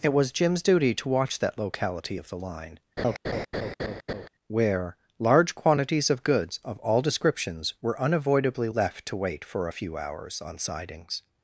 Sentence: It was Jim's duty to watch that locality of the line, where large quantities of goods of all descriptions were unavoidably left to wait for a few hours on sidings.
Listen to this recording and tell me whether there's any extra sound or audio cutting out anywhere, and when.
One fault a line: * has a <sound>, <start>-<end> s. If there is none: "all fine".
* has a laugh, 3.0-4.3 s